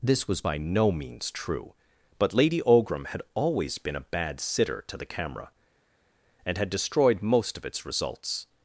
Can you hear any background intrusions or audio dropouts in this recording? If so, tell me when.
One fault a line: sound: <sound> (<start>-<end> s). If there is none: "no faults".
no faults